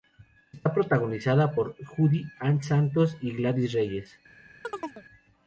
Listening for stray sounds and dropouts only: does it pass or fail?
fail